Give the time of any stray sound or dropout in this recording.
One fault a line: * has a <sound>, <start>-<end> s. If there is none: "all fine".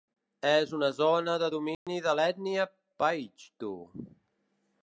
* has a dropout, 1.7-1.9 s